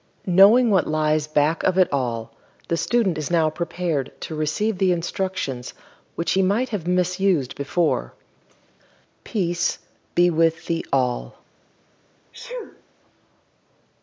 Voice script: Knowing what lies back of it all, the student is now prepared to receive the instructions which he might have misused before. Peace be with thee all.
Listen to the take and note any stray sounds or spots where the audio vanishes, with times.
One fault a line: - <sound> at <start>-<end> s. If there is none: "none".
- sneeze at 12.3-12.8 s